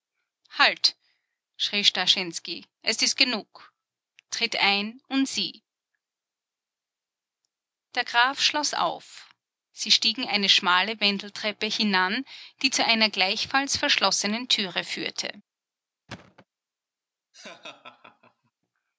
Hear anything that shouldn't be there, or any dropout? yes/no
yes